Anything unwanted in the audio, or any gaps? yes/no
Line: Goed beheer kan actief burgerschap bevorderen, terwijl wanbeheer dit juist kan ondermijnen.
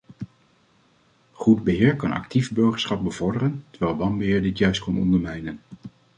no